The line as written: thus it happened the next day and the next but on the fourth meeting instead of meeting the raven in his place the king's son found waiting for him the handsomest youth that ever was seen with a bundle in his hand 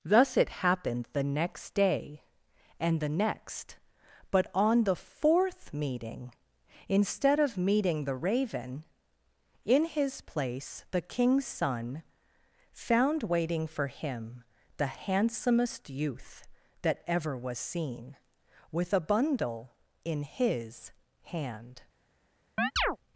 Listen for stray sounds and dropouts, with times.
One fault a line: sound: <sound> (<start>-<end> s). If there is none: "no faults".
sound: chirp (22.6-23.0 s)